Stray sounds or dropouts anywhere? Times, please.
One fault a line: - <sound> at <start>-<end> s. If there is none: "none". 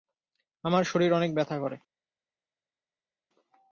none